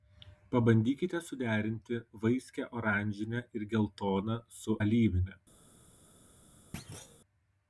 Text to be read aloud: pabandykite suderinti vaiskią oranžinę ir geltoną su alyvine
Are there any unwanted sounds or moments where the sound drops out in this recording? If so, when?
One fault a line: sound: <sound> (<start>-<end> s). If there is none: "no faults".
sound: thud (6.7-7.2 s)